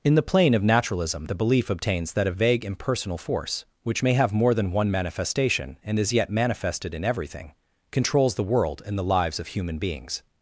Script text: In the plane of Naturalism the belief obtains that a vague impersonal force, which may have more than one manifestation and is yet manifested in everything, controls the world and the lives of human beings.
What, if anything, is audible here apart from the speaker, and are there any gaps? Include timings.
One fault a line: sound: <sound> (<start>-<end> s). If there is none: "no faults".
no faults